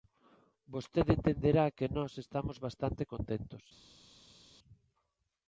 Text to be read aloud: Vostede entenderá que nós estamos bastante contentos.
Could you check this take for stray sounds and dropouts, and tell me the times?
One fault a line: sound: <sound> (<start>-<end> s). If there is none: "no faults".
no faults